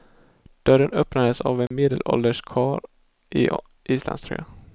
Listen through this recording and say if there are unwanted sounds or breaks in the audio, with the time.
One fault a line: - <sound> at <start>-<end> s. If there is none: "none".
- dropout at 1.7-1.7 s